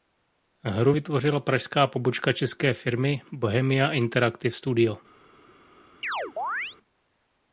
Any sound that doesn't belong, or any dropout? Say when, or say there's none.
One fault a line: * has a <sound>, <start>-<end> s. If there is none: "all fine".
* has a chirp, 6.0-6.8 s